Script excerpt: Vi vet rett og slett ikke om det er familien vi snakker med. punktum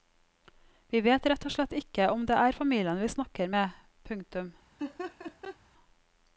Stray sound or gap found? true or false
true